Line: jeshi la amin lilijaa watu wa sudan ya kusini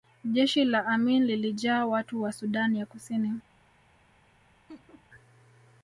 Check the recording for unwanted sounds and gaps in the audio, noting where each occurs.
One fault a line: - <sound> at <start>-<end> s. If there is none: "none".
- laugh at 4.7-5.1 s